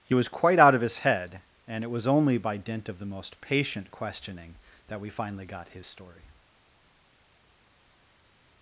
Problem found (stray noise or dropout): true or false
false